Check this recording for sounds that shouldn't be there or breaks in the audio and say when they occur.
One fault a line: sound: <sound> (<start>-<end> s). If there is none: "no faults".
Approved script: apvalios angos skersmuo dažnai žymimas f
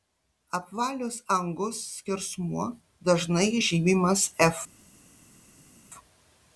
no faults